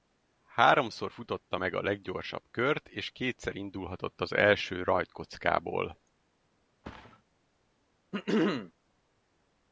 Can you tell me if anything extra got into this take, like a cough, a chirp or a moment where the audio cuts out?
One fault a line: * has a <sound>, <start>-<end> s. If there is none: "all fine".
* has a thud, 6.8-7.2 s
* has a throat clearing, 8.1-8.7 s